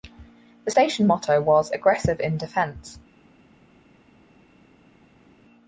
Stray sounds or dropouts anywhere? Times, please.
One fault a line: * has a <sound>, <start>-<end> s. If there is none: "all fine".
all fine